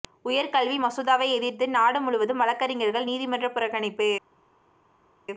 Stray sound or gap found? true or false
false